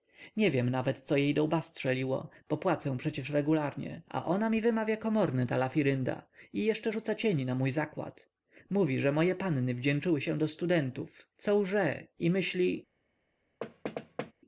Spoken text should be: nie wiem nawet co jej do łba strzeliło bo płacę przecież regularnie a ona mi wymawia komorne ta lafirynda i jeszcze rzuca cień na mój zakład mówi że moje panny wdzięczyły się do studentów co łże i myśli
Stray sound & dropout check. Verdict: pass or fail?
fail